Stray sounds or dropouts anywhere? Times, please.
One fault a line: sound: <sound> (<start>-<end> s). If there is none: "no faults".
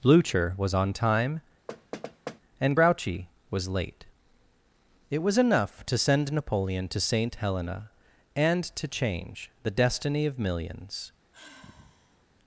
sound: thud (1.7-2.4 s)
sound: sigh (11.3-12.3 s)